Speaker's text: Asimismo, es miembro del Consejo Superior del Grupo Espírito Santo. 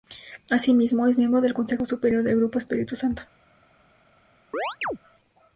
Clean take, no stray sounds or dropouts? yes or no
no